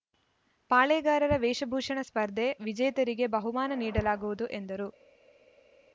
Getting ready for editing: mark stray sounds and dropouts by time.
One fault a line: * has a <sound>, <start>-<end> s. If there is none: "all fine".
all fine